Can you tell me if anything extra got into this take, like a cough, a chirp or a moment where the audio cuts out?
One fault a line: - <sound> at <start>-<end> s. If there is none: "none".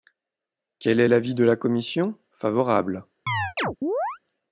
- chirp at 3.3-4.2 s